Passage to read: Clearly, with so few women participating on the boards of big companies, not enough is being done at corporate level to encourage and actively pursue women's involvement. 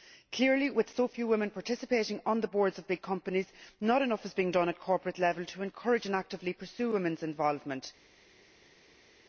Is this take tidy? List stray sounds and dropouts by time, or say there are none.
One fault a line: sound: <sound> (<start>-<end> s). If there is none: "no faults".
no faults